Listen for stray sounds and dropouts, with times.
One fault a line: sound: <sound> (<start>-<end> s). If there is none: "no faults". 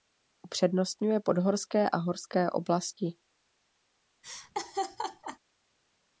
sound: laugh (4.2-5.4 s)